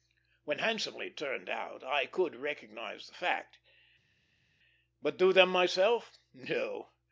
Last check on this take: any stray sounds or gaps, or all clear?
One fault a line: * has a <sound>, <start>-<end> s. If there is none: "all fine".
all fine